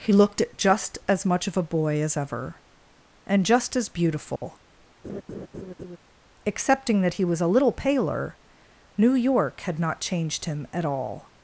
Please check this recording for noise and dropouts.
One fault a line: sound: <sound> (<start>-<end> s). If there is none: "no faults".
sound: dropout (4.4-4.4 s)
sound: laugh (5.0-6.0 s)